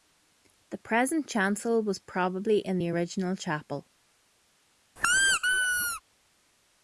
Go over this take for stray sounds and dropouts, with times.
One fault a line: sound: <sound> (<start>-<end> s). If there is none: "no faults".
sound: squeak (5.0-6.0 s)